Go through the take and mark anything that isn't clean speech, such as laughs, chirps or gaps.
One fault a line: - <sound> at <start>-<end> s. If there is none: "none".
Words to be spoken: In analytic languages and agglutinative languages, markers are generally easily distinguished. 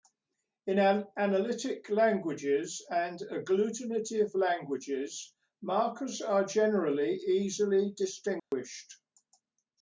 - dropout at 8.4-8.5 s